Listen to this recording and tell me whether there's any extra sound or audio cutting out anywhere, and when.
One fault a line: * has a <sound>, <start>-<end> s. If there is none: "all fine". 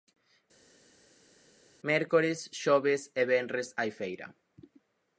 all fine